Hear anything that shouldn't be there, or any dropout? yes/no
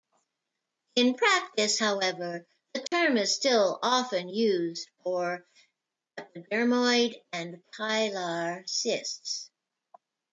yes